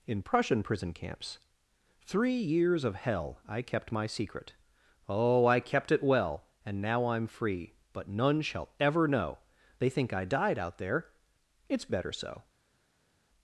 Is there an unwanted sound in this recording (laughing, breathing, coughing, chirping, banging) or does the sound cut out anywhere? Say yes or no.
no